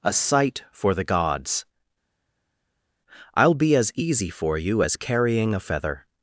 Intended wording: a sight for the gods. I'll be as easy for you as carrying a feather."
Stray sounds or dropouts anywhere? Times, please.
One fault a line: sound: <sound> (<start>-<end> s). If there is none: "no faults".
no faults